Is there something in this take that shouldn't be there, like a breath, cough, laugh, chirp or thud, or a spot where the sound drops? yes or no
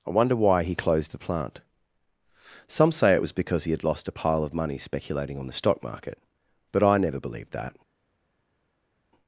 no